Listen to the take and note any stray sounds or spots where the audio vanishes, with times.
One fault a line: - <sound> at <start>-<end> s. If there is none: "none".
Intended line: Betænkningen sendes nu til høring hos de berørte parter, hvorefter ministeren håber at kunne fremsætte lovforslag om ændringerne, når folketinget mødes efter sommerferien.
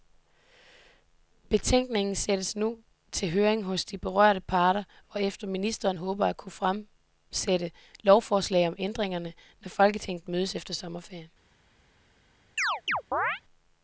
- chirp at 12.6-13.4 s